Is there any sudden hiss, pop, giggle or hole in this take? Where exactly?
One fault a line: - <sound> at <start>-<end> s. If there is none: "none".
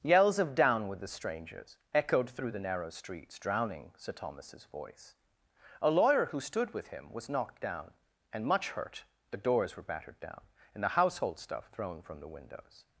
none